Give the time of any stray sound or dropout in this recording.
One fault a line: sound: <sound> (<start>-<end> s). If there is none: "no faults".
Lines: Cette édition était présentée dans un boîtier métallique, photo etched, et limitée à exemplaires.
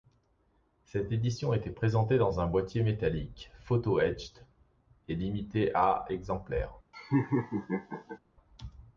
sound: laugh (6.9-8.2 s)